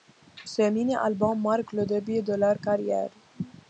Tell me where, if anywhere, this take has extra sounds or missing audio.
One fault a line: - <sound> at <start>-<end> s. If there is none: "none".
none